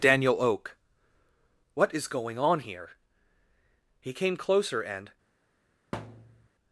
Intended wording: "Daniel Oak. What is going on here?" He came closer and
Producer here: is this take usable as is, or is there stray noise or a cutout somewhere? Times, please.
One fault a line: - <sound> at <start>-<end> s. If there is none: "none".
- thud at 5.9-6.5 s